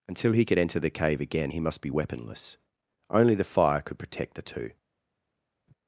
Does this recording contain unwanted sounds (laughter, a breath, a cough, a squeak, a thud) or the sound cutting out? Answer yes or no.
no